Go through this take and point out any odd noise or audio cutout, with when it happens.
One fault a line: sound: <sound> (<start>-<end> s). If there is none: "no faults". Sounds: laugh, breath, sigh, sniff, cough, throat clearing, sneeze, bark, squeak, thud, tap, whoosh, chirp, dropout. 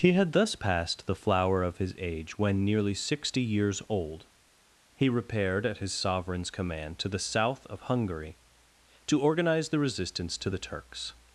no faults